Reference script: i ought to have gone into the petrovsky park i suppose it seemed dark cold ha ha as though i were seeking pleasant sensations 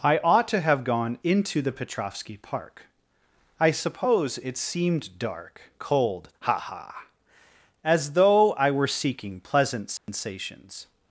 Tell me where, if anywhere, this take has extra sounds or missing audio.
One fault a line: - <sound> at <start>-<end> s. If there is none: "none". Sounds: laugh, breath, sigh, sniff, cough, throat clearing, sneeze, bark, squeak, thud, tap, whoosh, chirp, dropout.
- dropout at 10.0-10.1 s